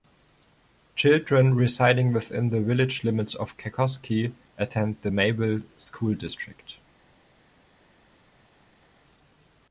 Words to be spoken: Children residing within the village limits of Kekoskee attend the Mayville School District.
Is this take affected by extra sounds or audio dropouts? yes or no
no